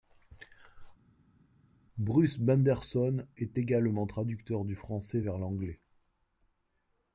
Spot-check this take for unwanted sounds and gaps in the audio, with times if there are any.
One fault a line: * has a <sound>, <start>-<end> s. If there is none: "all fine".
all fine